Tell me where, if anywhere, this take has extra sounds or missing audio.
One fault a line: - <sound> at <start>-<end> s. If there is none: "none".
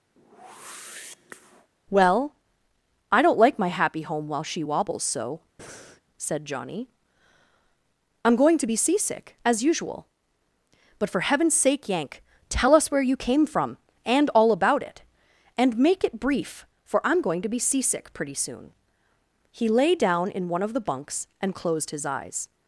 - whoosh at 0.2-1.7 s
- breath at 5.6-6.0 s